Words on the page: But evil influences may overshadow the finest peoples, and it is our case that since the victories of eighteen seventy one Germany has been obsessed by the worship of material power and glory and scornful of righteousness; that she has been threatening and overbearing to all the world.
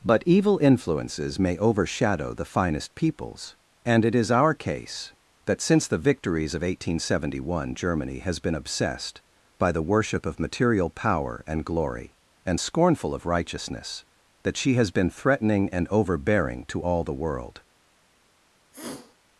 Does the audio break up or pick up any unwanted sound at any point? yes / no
yes